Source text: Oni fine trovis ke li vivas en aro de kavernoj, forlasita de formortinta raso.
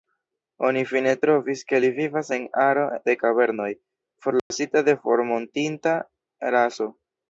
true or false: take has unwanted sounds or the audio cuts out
true